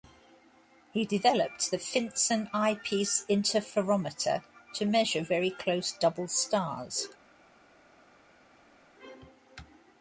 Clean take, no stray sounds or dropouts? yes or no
yes